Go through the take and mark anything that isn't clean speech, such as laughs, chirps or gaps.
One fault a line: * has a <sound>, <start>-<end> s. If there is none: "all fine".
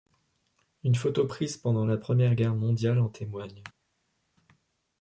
all fine